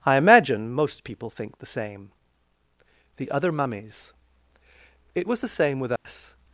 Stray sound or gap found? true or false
true